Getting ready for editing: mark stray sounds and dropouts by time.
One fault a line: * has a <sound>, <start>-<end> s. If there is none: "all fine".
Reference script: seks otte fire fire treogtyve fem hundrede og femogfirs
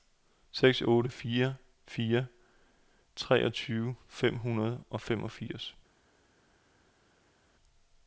all fine